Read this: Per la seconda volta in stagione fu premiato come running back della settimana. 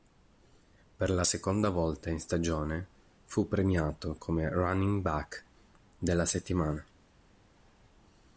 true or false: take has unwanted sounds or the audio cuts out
false